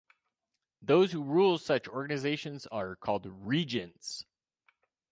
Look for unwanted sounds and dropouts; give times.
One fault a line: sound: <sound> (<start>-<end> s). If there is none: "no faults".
no faults